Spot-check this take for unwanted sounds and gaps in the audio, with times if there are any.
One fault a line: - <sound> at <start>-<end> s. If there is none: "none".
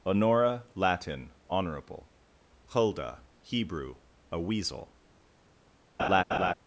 - laugh at 6.0-6.5 s